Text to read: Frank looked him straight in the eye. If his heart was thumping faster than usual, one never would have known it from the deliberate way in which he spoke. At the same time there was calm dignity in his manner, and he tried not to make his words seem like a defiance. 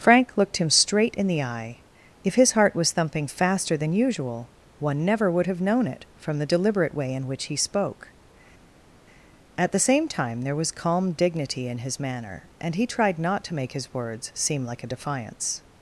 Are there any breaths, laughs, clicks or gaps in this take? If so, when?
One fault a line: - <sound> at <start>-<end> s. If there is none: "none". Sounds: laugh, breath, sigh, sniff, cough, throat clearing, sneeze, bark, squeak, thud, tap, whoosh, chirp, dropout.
none